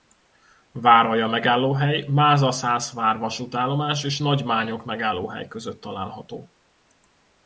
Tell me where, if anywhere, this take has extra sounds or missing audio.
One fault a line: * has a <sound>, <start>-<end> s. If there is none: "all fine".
all fine